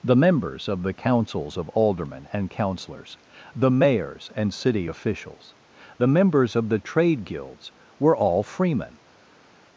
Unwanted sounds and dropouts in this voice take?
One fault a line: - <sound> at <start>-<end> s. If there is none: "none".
none